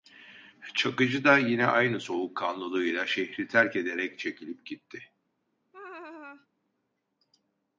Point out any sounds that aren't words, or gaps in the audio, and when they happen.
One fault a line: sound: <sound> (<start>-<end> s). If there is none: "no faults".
sound: laugh (5.7-6.5 s)